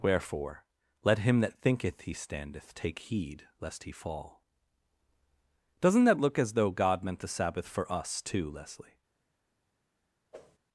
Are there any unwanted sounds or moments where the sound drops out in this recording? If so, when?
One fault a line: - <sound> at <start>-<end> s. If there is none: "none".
- whoosh at 10.3-10.6 s